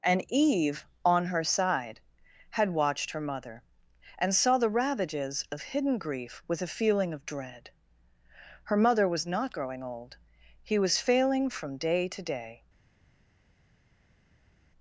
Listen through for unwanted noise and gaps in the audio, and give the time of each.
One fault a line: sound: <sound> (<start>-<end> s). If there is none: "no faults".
no faults